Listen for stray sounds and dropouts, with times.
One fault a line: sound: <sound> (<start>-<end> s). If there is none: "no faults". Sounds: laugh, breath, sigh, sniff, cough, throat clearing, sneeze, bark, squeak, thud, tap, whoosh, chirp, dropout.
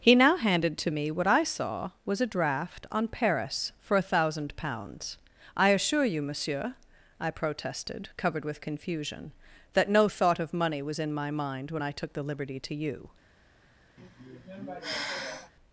sound: sigh (14.0-15.5 s)